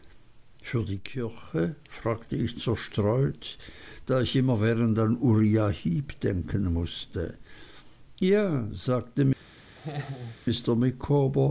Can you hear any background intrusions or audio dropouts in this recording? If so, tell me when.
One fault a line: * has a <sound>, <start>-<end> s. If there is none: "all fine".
* has a laugh, 9.8-10.4 s